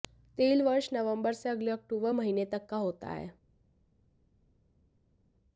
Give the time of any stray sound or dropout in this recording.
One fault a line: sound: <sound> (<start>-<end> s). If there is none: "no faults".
no faults